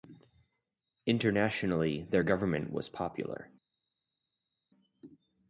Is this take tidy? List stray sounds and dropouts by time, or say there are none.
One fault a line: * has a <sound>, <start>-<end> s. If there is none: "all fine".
all fine